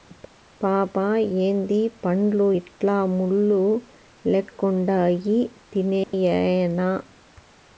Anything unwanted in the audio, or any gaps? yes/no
yes